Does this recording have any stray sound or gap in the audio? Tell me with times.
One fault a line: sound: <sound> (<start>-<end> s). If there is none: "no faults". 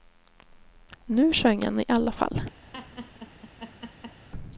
sound: laugh (2.7-4.3 s)